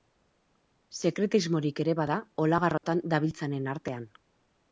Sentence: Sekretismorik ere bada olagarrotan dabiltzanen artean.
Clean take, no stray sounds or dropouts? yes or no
no